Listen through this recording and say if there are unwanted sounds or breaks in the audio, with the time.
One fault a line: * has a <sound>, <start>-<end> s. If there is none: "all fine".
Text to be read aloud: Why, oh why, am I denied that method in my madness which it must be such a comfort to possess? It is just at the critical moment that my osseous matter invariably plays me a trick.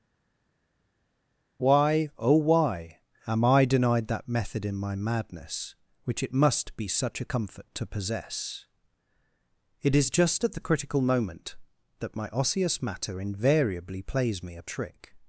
all fine